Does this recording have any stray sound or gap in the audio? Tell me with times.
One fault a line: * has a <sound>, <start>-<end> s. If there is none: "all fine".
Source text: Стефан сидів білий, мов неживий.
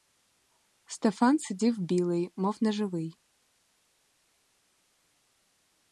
all fine